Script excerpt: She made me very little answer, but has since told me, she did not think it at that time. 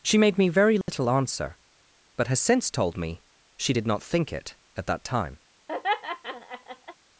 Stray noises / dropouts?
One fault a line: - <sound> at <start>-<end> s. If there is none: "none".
- dropout at 0.8-0.9 s
- laugh at 5.7-7.0 s